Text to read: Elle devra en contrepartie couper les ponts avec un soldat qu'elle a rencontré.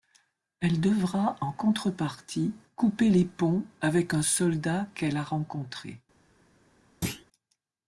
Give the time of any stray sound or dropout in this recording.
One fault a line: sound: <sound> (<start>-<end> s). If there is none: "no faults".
sound: thud (7.0-7.3 s)